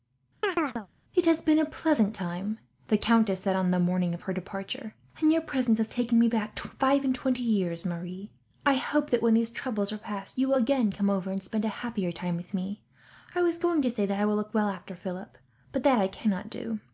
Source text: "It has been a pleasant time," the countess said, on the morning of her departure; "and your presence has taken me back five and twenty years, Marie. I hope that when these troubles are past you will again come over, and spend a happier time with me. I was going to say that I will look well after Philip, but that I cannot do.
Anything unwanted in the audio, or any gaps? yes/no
yes